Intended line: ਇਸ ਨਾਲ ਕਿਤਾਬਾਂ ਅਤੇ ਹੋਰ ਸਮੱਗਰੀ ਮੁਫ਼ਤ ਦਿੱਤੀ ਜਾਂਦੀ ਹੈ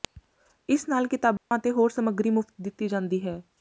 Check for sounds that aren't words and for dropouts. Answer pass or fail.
fail